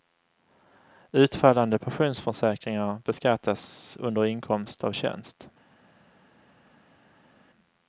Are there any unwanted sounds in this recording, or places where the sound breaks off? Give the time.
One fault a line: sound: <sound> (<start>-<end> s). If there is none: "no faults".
no faults